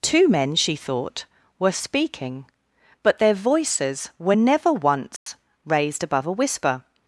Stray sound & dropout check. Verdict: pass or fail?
fail